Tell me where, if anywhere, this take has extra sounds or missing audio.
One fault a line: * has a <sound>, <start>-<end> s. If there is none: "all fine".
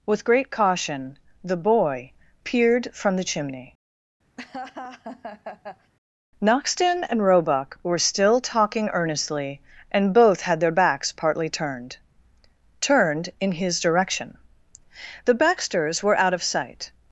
* has a laugh, 4.4-5.9 s